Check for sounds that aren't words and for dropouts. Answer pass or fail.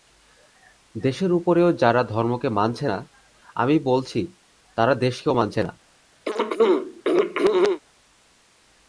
fail